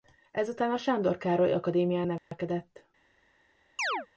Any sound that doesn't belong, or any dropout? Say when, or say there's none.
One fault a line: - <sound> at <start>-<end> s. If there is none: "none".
- dropout at 2.2-2.3 s
- chirp at 3.8-4.1 s